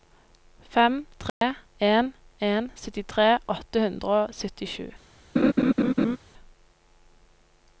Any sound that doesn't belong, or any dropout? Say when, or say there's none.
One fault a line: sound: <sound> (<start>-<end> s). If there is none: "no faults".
sound: dropout (1.3-1.4 s)
sound: laugh (5.4-6.2 s)